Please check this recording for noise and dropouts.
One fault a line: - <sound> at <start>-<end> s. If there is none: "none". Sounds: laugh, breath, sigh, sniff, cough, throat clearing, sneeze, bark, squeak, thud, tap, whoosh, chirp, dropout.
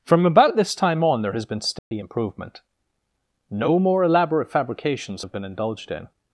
- dropout at 1.8-1.9 s